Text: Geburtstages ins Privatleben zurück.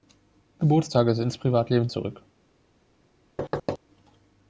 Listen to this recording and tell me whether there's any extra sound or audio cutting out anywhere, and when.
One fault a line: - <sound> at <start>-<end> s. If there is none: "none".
- thud at 3.4-3.8 s